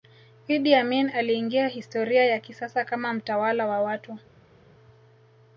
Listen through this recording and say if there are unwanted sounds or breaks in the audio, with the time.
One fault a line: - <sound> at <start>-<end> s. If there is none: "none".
none